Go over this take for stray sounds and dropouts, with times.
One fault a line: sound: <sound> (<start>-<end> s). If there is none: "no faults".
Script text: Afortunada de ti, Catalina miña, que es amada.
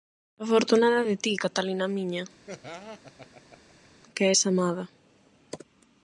sound: laugh (2.5-3.9 s)